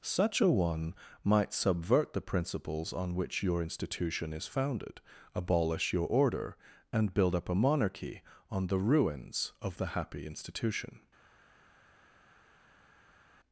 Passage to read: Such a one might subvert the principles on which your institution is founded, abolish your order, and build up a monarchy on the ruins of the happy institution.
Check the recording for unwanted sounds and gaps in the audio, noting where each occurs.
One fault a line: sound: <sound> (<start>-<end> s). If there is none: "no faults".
no faults